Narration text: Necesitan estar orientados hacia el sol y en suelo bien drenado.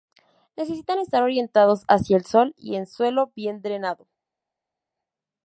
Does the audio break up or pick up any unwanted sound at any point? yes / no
no